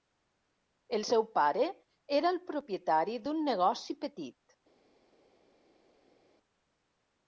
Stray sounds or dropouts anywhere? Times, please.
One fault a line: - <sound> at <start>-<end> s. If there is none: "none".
none